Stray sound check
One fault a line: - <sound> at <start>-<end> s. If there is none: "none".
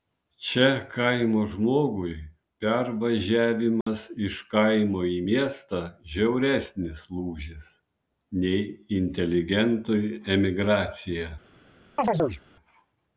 - dropout at 3.8-3.9 s
- chirp at 12.0-12.4 s